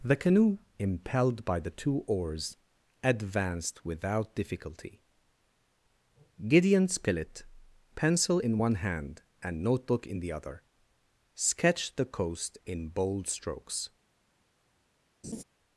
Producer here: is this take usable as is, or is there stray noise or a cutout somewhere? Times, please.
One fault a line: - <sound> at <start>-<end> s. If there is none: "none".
- laugh at 15.2-15.4 s